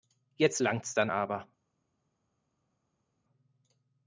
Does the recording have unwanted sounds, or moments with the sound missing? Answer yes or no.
no